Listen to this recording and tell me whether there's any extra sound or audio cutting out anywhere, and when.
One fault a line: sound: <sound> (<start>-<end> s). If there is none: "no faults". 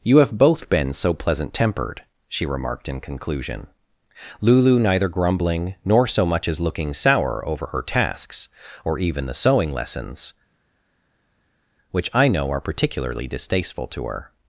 no faults